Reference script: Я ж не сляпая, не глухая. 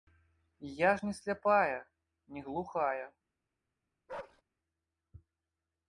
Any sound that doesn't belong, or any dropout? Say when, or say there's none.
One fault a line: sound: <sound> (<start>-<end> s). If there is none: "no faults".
sound: bark (4.1-4.4 s)